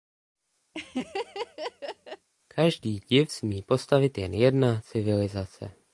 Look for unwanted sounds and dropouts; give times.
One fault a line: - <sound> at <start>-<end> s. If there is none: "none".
- laugh at 0.7-2.3 s